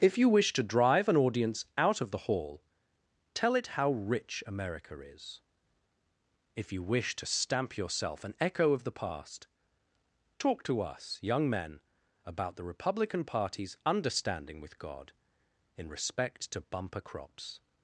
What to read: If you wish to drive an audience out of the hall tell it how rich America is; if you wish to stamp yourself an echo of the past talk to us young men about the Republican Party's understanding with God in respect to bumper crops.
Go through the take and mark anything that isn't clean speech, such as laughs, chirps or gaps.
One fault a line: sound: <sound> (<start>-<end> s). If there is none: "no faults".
no faults